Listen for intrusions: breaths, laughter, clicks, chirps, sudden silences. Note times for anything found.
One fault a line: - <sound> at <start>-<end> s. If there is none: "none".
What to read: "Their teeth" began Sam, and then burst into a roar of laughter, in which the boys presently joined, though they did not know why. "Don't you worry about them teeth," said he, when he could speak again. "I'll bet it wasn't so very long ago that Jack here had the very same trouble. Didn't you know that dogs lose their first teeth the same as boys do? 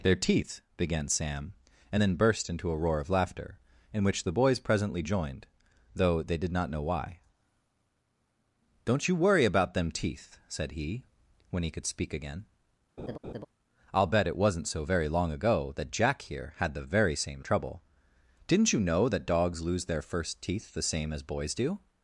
- laugh at 13.0-13.5 s